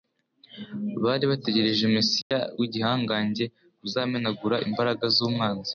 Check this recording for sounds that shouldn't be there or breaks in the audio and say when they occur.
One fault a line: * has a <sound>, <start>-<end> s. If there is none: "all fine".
* has a dropout, 2.2-2.3 s